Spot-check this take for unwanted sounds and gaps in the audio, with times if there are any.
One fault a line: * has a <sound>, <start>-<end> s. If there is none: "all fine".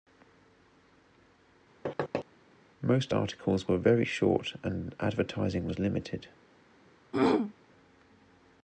* has a thud, 1.9-2.3 s
* has a throat clearing, 7.1-7.5 s